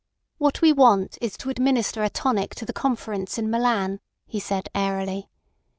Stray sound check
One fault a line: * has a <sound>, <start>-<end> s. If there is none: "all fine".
all fine